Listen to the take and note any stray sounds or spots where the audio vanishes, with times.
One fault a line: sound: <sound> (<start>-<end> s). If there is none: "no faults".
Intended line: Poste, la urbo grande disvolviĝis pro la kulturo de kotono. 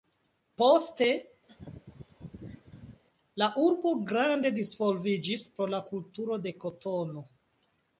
sound: laugh (1.5-3.0 s)